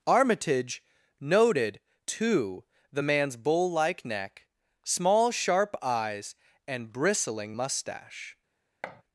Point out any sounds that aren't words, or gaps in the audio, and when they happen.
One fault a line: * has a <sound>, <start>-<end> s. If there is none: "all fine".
* has a thud, 8.8-9.0 s